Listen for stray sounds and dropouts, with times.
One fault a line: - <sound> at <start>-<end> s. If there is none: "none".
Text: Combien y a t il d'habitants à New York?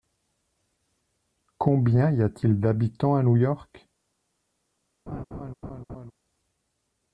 - laugh at 5.1-6.1 s